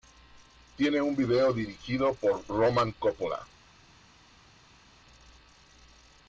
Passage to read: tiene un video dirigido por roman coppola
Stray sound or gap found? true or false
false